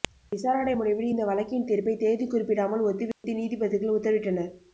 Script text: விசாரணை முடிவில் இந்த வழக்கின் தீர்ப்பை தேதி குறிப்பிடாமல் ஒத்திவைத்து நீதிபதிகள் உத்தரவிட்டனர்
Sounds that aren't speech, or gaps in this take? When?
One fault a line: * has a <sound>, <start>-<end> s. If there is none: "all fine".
* has a dropout, 3.1-3.2 s